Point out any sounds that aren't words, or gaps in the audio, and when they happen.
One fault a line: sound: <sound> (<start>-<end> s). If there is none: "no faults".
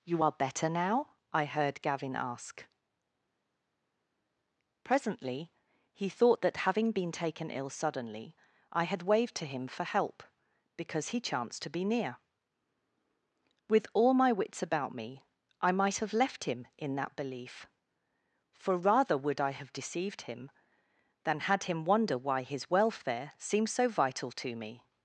no faults